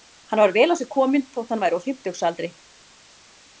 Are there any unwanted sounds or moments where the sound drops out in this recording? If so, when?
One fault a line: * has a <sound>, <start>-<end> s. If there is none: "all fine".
all fine